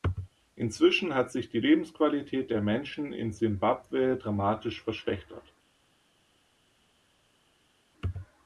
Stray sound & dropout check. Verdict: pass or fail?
pass